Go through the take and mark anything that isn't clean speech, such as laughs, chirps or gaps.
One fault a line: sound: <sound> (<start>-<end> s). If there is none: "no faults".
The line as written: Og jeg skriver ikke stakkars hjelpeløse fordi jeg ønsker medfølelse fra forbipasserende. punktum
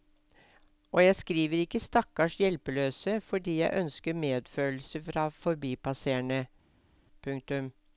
no faults